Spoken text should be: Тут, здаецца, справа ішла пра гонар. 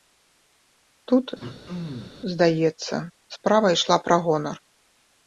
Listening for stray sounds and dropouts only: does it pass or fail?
fail